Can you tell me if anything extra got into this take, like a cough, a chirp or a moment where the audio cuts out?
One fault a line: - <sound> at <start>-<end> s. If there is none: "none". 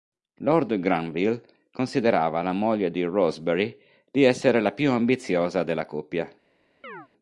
- chirp at 6.8-7.1 s